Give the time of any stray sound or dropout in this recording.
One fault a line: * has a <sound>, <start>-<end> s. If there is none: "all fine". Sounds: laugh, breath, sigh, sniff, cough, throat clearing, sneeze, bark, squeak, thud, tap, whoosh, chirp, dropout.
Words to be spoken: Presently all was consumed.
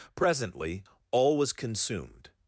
all fine